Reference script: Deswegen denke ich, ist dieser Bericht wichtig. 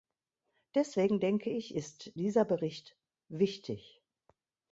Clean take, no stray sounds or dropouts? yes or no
yes